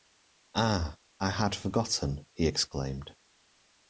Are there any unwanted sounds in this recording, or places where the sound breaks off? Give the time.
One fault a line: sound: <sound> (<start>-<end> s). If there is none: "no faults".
no faults